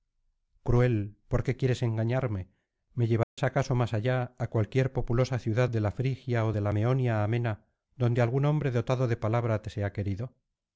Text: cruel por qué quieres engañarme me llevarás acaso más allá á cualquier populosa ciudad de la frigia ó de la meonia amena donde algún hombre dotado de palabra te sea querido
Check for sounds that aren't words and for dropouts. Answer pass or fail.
fail